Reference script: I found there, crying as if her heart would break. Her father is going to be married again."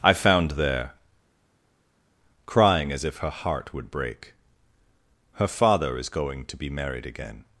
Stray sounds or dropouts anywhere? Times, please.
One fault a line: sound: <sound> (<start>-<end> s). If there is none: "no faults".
no faults